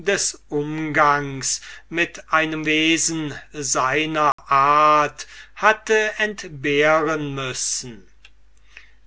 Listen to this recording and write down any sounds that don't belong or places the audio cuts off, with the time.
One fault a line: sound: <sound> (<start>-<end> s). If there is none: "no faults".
sound: dropout (4.3-4.4 s)